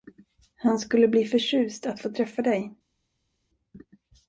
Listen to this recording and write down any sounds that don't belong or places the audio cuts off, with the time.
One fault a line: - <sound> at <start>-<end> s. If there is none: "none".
none